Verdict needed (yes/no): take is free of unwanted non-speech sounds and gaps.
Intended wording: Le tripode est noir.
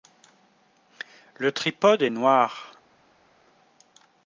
yes